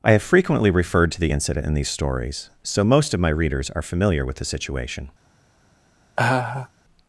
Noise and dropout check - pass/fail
fail